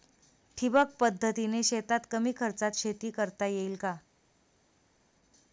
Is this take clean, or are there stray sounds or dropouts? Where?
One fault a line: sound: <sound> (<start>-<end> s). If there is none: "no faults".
no faults